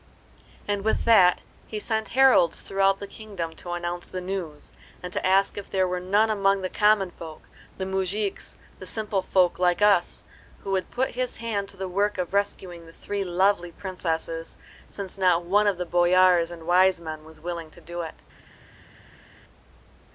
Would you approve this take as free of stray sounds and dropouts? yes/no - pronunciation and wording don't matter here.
yes